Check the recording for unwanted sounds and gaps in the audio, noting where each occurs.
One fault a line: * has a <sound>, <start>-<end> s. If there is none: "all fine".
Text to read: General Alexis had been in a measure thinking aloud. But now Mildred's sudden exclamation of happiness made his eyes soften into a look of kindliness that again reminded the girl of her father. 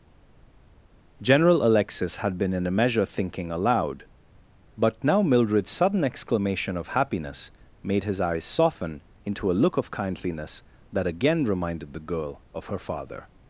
all fine